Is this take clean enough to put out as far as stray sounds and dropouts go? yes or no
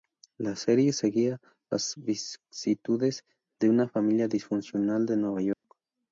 no